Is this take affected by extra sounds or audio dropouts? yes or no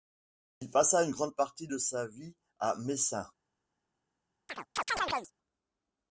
yes